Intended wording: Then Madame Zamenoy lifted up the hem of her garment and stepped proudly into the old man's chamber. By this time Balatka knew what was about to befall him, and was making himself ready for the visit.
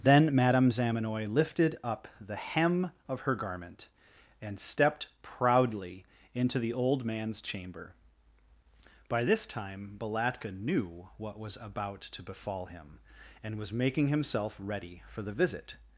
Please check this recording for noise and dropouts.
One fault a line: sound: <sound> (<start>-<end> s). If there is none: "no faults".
no faults